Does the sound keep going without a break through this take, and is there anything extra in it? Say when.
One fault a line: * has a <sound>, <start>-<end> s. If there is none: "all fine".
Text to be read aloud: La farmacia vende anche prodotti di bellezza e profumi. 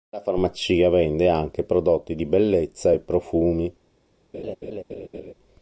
* has a laugh, 4.3-5.3 s